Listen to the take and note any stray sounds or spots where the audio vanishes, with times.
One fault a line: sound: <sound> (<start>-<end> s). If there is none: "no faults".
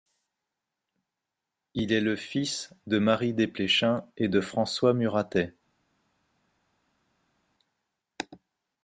no faults